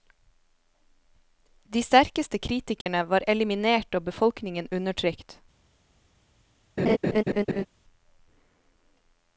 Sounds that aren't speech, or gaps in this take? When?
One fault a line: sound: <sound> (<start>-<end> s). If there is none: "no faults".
sound: dropout (2.8-2.9 s)
sound: laugh (6.8-7.7 s)